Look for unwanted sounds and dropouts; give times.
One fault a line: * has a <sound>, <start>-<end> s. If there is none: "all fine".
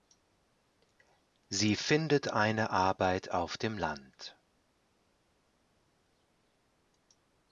all fine